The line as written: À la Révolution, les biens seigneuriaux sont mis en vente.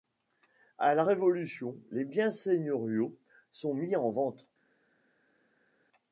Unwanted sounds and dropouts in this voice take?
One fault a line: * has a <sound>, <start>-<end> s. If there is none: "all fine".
all fine